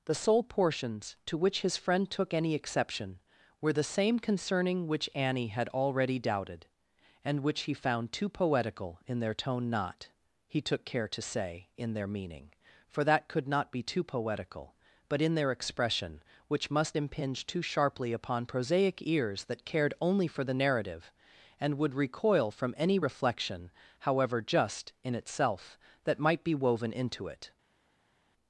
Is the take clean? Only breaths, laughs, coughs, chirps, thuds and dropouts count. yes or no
yes